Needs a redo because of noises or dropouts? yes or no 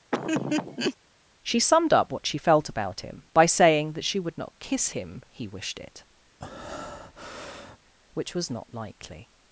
yes